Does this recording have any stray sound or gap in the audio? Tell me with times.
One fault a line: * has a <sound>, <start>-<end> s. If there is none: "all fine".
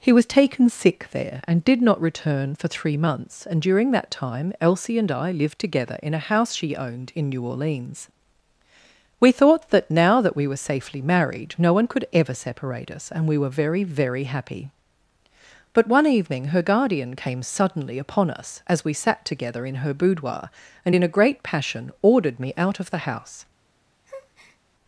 * has a breath, 24.0-24.6 s